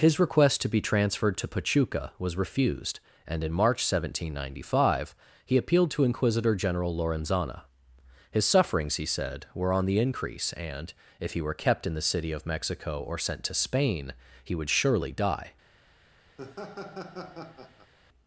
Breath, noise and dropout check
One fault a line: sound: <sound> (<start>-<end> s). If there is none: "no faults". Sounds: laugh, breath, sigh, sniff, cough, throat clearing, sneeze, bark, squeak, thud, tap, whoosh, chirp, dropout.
sound: laugh (16.4-17.9 s)